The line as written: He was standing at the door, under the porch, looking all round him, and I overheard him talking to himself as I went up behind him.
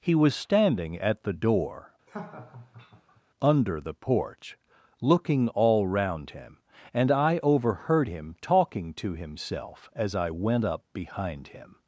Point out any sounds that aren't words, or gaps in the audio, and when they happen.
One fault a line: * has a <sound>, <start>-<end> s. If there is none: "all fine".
* has a laugh, 2.1-3.2 s